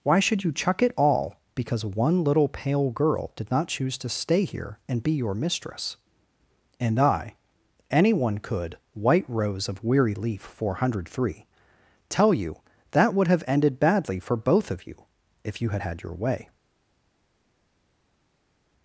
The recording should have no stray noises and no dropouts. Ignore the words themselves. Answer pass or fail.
pass